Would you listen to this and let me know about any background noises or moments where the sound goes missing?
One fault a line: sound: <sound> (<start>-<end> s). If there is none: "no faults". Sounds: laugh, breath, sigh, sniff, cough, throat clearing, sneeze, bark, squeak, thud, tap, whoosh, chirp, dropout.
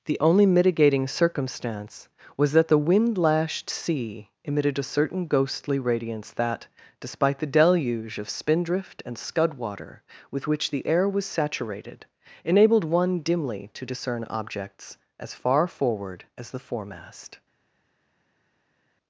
no faults